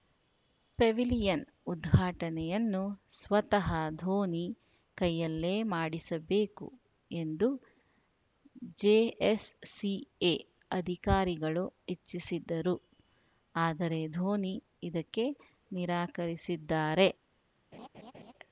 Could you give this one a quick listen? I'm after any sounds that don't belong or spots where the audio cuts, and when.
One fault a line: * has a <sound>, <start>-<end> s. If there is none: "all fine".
* has a laugh, 17.7-18.3 s